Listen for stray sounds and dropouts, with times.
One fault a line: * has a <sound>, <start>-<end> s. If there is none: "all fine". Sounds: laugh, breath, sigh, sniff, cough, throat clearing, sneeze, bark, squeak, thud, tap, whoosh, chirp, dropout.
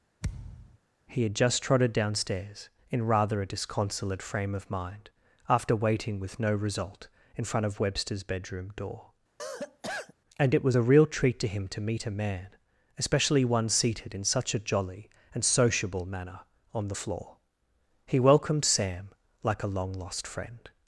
* has a thud, 0.2-0.8 s
* has a cough, 9.4-10.1 s